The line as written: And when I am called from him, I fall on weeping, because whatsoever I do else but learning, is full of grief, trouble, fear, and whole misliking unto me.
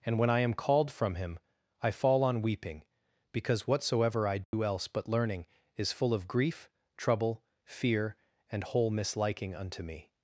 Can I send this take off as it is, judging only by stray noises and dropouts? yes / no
no